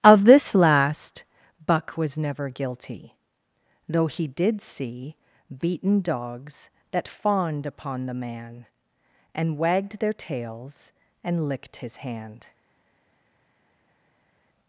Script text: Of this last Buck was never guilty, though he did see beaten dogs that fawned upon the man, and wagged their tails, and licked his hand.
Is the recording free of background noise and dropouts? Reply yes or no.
yes